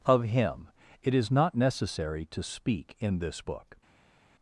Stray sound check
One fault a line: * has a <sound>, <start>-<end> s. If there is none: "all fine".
all fine